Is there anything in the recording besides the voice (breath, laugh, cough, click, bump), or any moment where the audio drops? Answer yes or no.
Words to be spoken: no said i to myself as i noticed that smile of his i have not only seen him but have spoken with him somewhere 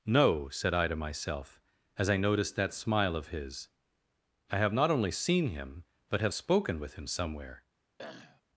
yes